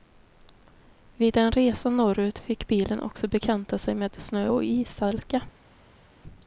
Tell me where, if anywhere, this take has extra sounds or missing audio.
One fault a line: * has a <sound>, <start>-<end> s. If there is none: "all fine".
all fine